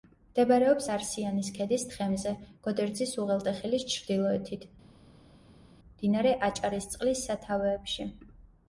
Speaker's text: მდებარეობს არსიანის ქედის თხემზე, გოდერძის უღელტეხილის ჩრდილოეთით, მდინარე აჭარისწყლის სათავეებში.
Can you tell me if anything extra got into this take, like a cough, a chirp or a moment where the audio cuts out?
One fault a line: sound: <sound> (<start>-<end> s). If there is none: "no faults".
no faults